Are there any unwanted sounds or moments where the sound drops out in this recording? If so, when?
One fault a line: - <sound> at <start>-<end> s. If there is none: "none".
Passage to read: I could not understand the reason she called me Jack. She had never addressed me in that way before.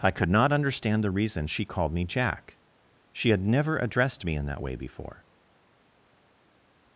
none